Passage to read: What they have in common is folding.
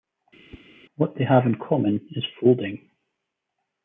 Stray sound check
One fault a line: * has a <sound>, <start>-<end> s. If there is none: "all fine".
* has a whoosh, 0.5-0.6 s